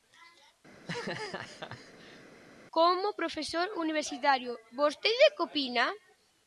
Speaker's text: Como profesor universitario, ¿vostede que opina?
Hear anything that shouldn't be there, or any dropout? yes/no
yes